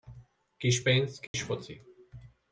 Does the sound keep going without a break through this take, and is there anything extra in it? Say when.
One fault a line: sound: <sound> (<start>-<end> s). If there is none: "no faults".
sound: dropout (1.3-1.3 s)